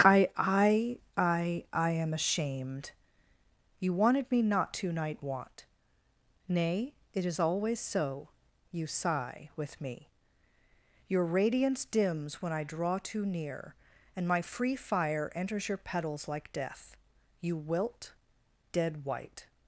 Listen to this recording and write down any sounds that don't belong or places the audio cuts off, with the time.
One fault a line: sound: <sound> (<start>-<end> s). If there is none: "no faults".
no faults